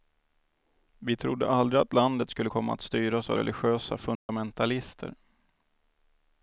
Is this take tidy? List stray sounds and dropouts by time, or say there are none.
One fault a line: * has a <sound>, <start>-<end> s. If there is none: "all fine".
* has a dropout, 4.2-4.3 s